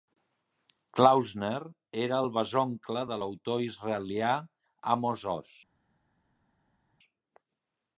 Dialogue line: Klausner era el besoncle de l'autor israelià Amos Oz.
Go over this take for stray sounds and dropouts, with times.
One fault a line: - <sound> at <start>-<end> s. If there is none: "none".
none